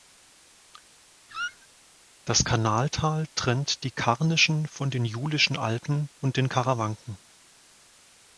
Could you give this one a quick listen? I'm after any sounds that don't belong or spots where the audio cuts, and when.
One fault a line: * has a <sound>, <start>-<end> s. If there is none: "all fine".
* has a squeak, 1.3-1.7 s